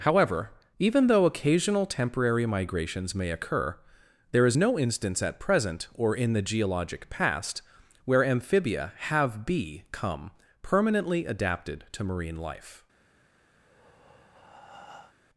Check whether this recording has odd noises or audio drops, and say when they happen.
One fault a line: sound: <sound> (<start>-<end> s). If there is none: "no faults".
sound: breath (13.6-15.1 s)